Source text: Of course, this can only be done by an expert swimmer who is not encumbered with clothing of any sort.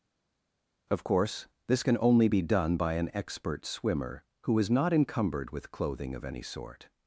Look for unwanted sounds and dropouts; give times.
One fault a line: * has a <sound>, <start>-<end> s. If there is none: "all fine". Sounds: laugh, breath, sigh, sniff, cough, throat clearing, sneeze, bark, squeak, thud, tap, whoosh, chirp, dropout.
all fine